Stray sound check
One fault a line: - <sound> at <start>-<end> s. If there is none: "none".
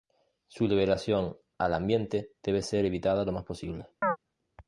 - chirp at 4.0-4.2 s